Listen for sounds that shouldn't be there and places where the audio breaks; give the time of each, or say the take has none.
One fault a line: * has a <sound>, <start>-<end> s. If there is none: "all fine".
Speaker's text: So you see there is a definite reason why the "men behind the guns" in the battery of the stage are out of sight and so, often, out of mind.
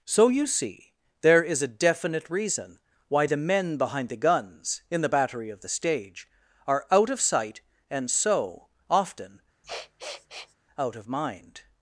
* has a sniff, 9.6-10.5 s